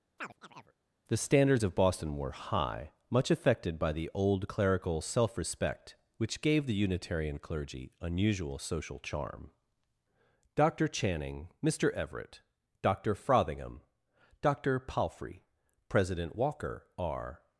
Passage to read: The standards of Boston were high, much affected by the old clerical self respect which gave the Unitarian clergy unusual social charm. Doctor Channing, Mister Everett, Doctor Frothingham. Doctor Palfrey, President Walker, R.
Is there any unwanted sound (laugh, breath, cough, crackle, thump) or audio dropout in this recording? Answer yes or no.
yes